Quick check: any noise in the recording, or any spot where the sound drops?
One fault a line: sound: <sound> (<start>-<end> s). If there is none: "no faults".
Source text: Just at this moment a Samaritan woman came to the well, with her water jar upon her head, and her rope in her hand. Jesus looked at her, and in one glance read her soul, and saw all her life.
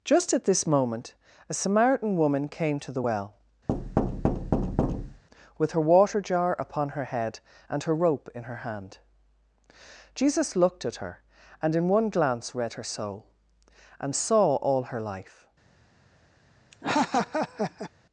sound: thud (3.7-5.2 s)
sound: laugh (16.7-17.9 s)